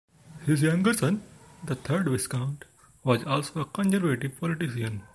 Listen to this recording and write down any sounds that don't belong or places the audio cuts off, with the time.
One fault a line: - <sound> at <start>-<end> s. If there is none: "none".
none